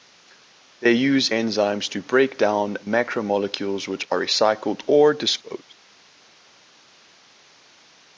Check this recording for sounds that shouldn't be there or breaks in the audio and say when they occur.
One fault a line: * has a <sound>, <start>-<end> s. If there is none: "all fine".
all fine